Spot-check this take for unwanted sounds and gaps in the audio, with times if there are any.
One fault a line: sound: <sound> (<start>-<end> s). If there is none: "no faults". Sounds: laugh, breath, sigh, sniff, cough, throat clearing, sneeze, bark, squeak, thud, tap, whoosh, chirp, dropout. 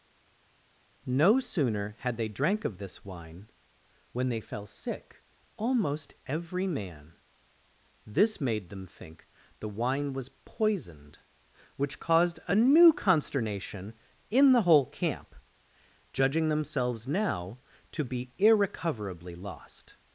no faults